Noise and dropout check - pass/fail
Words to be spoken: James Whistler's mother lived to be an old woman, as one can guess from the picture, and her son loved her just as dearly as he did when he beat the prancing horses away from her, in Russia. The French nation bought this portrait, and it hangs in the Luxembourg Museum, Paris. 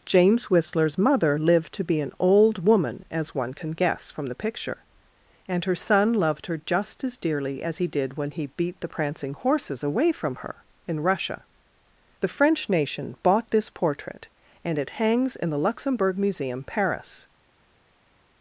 pass